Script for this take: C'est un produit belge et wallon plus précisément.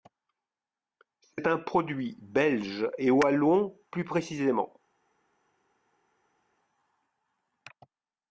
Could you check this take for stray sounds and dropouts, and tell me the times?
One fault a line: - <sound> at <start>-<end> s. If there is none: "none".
none